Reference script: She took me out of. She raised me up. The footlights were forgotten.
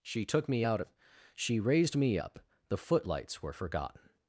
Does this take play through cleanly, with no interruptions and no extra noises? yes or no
yes